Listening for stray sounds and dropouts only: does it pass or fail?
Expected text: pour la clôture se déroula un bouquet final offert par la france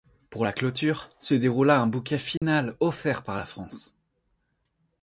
fail